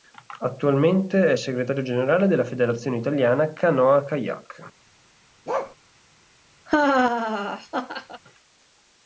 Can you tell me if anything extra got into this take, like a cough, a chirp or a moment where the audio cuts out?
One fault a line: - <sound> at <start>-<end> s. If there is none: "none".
- bark at 5.5-5.8 s
- laugh at 6.7-8.2 s